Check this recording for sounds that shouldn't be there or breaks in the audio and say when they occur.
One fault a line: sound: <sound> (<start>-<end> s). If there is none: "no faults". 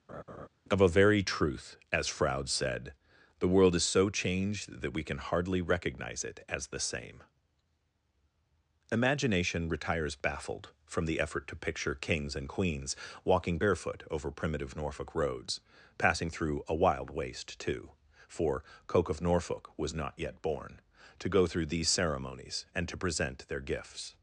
sound: laugh (0.1-0.5 s)